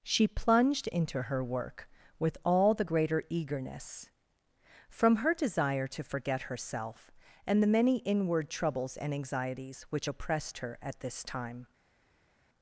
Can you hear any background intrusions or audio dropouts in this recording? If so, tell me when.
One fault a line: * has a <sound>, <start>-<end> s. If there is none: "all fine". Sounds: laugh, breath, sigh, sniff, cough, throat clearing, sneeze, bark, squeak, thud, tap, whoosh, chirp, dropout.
all fine